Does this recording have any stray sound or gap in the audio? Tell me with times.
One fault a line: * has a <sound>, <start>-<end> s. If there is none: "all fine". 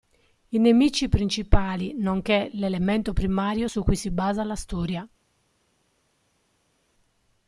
all fine